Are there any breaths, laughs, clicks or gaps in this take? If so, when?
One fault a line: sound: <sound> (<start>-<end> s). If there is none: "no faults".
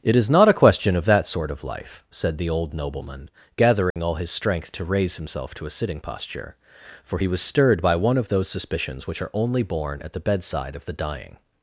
sound: dropout (3.9-4.0 s)